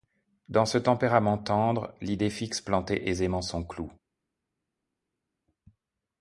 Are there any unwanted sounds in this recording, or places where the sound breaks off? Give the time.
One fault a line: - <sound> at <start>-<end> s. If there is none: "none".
none